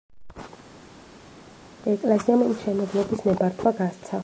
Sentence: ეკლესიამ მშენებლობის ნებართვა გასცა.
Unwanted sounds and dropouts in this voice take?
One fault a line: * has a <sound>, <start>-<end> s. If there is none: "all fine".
all fine